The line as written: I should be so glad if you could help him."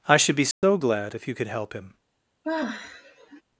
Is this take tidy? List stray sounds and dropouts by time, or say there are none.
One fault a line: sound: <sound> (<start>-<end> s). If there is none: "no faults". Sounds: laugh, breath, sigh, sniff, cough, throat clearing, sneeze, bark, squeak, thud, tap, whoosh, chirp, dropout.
sound: dropout (0.5-0.6 s)
sound: sigh (2.4-3.4 s)